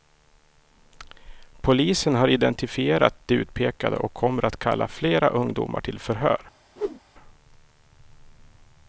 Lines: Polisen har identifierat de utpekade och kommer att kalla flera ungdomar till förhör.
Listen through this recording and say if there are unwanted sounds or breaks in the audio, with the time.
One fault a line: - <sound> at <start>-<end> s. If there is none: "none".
- whoosh at 6.8-7.0 s